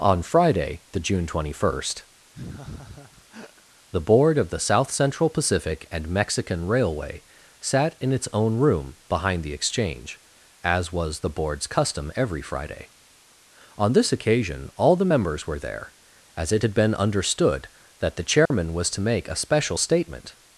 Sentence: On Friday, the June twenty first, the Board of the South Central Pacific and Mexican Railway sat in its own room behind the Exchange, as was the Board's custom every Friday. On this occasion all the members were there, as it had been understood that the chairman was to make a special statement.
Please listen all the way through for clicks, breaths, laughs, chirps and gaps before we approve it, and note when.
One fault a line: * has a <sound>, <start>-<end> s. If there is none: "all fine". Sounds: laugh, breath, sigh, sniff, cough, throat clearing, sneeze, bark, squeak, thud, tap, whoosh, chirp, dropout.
* has a laugh, 2.3-3.6 s
* has a dropout, 18.5-18.5 s